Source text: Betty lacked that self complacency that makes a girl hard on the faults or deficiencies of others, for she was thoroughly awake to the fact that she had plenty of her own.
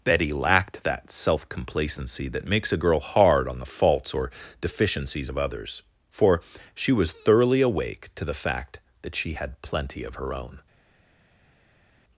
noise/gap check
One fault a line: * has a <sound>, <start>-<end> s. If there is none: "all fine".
all fine